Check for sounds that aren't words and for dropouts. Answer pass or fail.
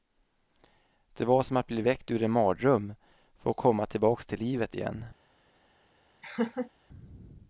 fail